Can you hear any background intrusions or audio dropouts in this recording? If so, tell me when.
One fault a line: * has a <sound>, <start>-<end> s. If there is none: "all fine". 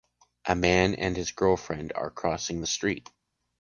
all fine